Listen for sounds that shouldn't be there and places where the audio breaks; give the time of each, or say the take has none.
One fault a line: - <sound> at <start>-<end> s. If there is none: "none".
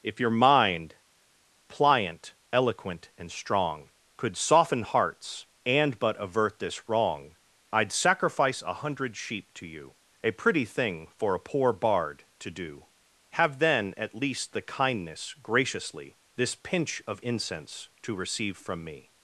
none